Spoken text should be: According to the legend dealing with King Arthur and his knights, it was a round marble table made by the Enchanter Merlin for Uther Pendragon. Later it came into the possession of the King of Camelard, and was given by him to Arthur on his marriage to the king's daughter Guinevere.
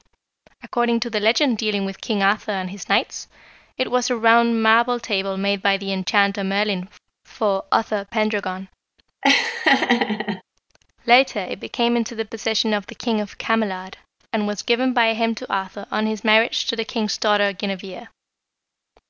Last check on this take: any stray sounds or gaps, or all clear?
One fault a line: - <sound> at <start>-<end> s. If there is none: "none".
- laugh at 9.2-10.4 s